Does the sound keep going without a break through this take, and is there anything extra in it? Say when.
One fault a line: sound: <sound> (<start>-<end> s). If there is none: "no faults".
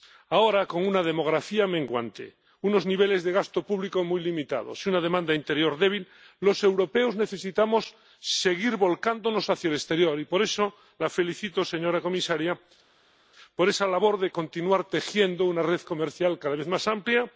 no faults